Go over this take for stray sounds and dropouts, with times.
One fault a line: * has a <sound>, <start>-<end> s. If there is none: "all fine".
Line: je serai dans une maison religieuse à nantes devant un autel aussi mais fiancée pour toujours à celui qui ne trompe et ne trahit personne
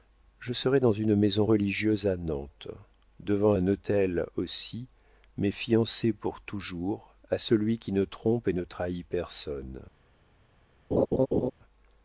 * has a laugh, 10.9-11.5 s